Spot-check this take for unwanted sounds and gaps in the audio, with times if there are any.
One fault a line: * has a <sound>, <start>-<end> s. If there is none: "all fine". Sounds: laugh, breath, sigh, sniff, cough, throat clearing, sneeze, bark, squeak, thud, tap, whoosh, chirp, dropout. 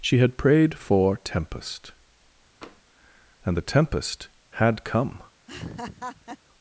* has a tap, 2.6-2.8 s
* has a laugh, 5.5-6.4 s